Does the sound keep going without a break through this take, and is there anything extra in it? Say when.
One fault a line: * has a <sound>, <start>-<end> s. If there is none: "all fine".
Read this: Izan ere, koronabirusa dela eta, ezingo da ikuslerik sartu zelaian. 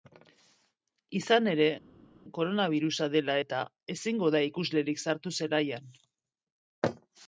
all fine